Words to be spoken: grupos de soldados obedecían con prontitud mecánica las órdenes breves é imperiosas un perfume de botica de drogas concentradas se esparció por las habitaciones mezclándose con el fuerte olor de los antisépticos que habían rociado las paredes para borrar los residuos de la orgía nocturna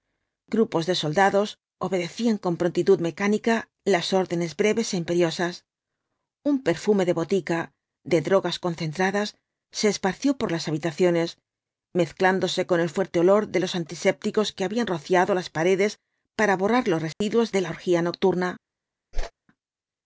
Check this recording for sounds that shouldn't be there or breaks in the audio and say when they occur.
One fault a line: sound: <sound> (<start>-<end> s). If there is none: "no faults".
sound: dropout (17.1-17.2 s)
sound: whoosh (19.1-19.3 s)